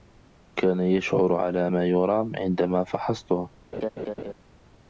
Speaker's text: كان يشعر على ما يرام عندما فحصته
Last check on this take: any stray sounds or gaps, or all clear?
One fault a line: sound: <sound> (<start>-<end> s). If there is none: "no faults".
sound: laugh (3.7-4.3 s)